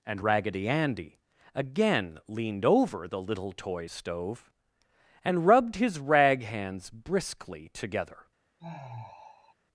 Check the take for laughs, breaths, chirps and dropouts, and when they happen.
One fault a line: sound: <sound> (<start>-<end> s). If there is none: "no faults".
sound: sigh (8.6-9.5 s)